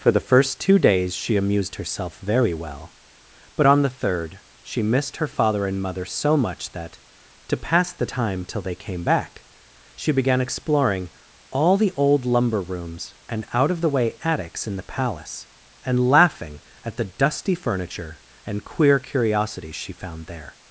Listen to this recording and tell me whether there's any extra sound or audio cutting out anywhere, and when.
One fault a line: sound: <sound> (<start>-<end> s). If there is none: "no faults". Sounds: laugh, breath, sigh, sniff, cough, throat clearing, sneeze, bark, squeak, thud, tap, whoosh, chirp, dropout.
no faults